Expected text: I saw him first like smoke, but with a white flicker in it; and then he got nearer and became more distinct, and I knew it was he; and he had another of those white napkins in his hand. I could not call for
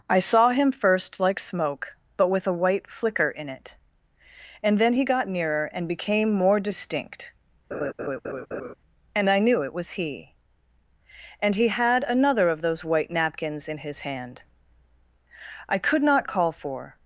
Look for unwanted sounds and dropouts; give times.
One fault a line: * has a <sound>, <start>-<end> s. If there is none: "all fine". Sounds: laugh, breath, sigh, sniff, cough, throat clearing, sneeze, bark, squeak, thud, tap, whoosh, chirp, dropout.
* has a laugh, 7.7-8.7 s